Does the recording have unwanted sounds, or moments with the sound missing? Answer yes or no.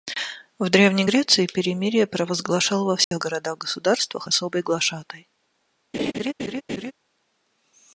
yes